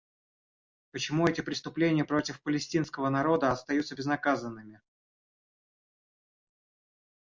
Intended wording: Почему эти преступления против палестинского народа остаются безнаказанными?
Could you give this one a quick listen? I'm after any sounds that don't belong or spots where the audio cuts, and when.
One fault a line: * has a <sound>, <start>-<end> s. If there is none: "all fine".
all fine